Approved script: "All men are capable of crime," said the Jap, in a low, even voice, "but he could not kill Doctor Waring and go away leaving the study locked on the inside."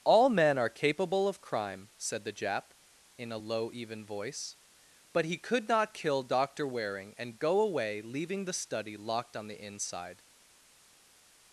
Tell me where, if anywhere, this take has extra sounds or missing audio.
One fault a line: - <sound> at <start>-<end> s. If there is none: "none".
none